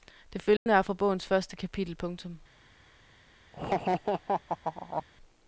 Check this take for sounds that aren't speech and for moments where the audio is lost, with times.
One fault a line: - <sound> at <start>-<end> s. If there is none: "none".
- dropout at 0.6-0.7 s
- laugh at 3.5-5.0 s